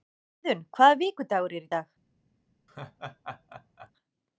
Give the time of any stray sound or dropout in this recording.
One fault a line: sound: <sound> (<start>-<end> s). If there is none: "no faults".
sound: laugh (2.7-3.9 s)